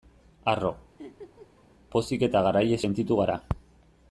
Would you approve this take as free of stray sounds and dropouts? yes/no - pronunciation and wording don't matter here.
no